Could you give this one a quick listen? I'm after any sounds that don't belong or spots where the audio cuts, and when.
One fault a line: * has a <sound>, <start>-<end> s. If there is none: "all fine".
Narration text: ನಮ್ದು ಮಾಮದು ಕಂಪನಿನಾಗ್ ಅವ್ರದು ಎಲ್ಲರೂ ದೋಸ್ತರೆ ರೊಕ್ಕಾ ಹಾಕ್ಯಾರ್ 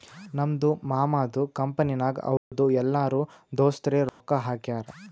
* has a dropout, 2.4-2.5 s
* has a dropout, 4.1-4.2 s